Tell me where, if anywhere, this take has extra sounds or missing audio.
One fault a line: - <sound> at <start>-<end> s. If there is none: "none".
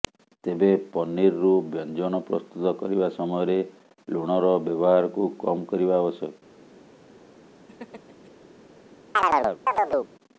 - laugh at 7.7-8.3 s
- chirp at 9.2-10.1 s